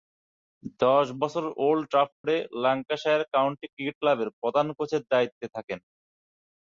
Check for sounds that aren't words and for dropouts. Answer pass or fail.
fail